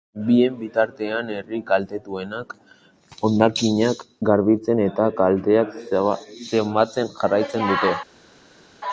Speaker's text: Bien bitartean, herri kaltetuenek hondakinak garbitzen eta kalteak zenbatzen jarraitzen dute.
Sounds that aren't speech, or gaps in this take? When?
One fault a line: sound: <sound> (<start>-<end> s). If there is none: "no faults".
no faults